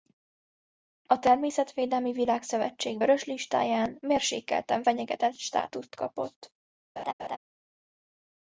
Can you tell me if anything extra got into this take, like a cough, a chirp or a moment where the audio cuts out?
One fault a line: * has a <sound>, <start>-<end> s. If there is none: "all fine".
* has a laugh, 7.0-7.4 s